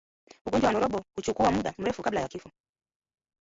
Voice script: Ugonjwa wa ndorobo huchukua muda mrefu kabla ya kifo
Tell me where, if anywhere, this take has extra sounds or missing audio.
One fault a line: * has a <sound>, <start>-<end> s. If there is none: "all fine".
all fine